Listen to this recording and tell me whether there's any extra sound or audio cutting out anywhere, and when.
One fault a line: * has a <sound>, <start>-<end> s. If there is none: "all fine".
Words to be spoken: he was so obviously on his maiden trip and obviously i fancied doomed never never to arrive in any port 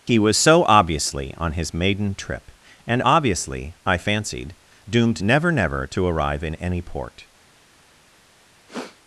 * has a sniff, 8.7-9.0 s